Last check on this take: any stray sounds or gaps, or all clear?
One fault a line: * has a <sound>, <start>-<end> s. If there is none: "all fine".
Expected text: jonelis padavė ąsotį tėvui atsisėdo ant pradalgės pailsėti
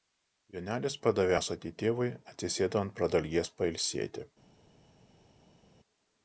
all fine